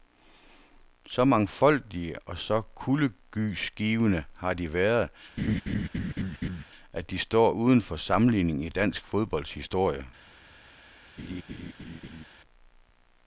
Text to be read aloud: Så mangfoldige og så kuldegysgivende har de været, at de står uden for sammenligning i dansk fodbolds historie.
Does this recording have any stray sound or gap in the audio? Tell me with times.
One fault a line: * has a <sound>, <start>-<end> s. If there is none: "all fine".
* has a laugh, 5.4-6.6 s
* has a laugh, 11.2-12.3 s